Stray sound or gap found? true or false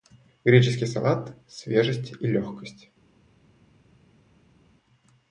false